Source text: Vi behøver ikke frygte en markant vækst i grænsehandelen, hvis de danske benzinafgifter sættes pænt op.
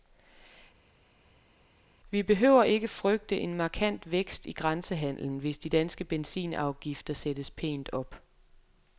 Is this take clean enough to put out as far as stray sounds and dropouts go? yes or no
yes